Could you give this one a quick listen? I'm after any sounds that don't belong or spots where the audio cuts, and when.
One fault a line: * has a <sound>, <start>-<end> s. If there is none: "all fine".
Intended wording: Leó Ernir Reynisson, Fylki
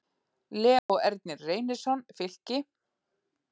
* has a dropout, 0.8-0.9 s